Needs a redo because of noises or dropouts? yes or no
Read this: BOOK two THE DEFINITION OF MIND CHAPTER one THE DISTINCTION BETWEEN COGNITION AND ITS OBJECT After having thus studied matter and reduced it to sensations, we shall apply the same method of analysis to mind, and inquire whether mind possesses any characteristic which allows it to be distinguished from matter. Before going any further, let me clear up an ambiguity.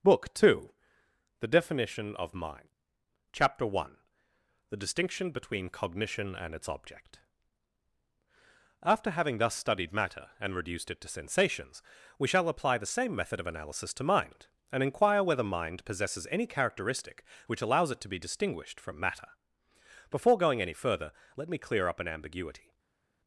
no